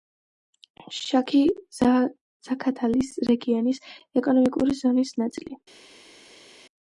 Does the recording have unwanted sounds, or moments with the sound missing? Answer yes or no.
no